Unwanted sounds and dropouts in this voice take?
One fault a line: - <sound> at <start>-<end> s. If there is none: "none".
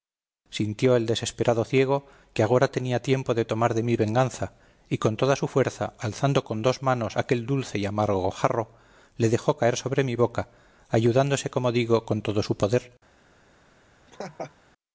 - laugh at 14.1-14.5 s